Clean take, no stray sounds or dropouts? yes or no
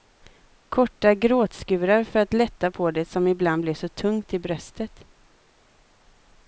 yes